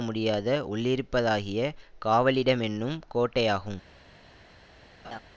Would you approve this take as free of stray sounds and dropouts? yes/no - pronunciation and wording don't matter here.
no